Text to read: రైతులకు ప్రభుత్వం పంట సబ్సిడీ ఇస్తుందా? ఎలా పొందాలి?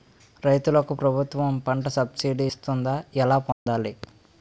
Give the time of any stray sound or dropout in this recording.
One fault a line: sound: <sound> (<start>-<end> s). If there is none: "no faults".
sound: dropout (3.5-3.7 s)